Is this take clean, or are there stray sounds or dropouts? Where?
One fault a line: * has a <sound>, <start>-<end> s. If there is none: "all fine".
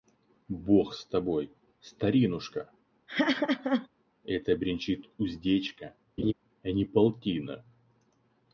* has a laugh, 3.1-3.9 s
* has a laugh, 6.2-6.3 s